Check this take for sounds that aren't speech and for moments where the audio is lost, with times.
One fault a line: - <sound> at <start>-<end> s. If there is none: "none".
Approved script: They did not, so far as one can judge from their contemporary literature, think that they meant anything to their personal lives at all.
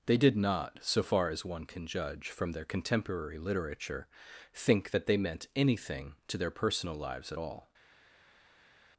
none